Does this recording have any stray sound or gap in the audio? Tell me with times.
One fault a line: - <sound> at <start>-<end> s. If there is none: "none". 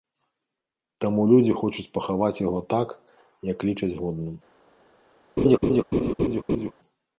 - laugh at 5.4-6.7 s